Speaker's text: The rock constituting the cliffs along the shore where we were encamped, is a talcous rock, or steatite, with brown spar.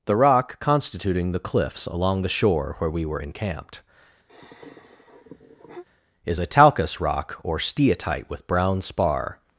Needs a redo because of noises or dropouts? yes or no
yes